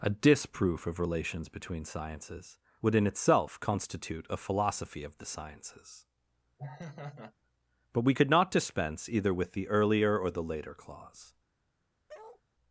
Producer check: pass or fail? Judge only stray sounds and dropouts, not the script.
fail